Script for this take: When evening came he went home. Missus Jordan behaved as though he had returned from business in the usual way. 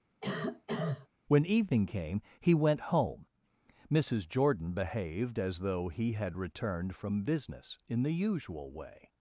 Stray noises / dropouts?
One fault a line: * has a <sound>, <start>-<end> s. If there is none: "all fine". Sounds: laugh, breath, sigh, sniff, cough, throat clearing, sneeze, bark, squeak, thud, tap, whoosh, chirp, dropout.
* has a cough, 0.2-1.1 s